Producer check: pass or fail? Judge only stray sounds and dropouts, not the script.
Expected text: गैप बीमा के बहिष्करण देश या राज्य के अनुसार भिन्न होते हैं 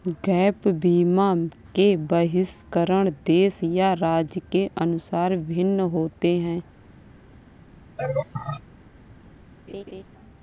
fail